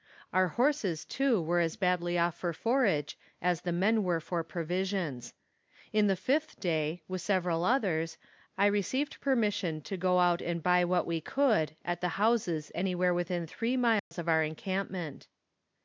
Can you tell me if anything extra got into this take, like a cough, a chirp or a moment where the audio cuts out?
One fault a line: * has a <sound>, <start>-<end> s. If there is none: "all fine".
* has a dropout, 14.0-14.1 s